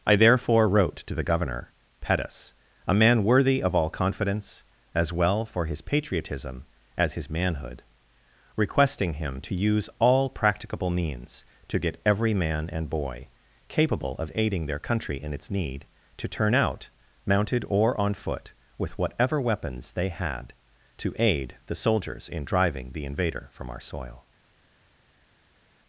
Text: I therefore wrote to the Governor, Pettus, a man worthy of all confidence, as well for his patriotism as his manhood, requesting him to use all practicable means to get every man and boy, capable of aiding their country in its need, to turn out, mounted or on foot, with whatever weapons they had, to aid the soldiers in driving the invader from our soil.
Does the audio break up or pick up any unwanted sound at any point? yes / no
no